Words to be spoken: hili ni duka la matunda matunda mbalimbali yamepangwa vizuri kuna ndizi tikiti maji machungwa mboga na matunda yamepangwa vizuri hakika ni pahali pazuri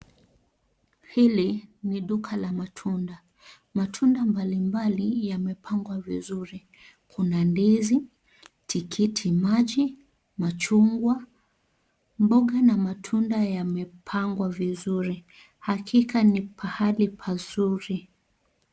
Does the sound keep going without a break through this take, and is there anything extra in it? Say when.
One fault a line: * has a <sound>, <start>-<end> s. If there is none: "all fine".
all fine